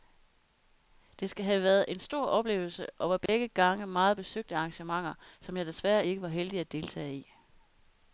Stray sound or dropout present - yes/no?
yes